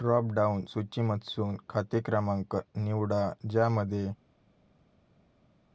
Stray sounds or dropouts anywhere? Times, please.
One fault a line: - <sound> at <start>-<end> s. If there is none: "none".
none